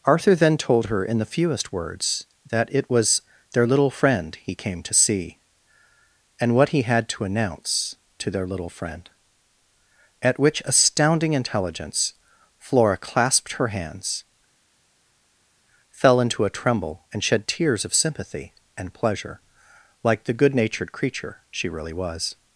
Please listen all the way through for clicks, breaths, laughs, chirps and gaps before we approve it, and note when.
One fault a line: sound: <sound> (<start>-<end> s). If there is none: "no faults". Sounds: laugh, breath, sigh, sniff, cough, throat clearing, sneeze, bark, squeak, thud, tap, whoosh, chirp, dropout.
no faults